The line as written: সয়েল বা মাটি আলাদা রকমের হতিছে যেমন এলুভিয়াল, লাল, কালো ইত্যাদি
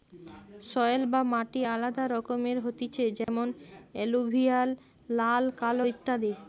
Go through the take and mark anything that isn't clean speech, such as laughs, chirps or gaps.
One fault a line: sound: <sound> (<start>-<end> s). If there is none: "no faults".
sound: dropout (3.2-3.3 s)